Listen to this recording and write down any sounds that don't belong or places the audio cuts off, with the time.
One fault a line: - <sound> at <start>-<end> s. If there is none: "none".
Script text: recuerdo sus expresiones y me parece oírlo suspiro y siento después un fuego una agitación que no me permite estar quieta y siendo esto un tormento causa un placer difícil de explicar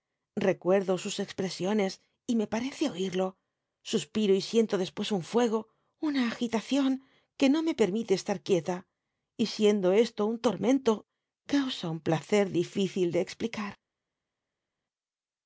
none